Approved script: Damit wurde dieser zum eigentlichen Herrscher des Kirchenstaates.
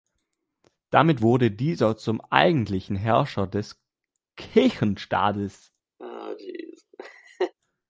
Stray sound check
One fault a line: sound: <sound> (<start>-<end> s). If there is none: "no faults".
sound: laugh (6.0-7.5 s)